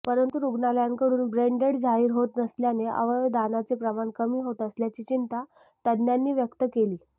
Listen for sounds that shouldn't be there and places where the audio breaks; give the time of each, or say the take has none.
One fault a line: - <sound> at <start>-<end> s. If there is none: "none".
none